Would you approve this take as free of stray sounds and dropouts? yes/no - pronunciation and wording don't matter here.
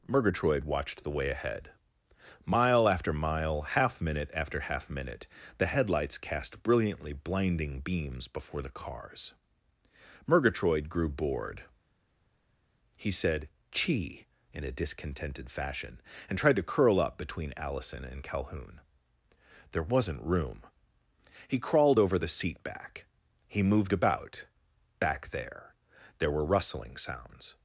yes